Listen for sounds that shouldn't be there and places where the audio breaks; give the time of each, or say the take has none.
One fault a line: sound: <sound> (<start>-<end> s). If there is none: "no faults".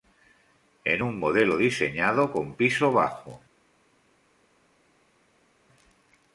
no faults